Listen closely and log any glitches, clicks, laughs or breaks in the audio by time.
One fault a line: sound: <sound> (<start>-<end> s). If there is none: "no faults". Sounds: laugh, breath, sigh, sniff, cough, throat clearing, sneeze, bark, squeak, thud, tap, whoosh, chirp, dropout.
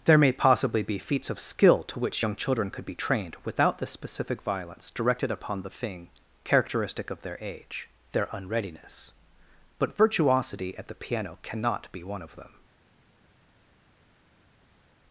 no faults